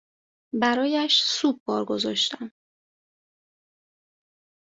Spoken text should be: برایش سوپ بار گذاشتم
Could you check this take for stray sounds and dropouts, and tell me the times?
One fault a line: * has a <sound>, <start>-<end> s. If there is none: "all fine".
all fine